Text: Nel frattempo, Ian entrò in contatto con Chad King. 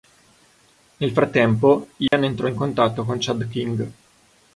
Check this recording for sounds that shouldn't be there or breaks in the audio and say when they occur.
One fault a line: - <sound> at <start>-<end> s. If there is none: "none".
- dropout at 2.1-2.1 s